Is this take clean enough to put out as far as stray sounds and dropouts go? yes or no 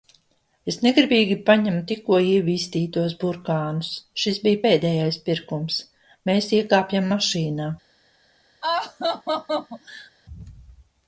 no